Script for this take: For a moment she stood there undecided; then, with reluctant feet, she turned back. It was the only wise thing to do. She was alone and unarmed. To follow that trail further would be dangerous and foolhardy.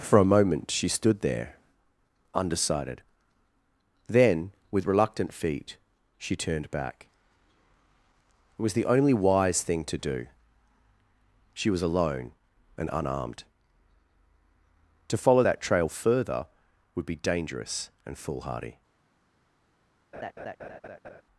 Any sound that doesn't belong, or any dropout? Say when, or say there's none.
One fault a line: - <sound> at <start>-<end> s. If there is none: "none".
- laugh at 20.1-21.2 s